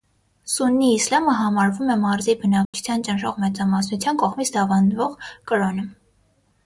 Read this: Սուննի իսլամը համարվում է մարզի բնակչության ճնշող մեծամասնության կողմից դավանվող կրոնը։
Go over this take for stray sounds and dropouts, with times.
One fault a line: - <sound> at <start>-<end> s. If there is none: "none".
- dropout at 2.6-2.7 s